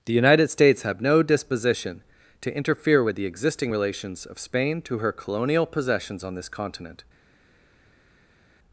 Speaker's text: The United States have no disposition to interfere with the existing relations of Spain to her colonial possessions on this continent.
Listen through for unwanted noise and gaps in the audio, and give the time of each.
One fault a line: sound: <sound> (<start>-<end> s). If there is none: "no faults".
no faults